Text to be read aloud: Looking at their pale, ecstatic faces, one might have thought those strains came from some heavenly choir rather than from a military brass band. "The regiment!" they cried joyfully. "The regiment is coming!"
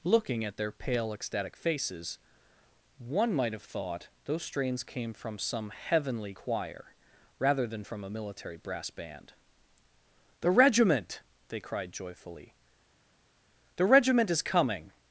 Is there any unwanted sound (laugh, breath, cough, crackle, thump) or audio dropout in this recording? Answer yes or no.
no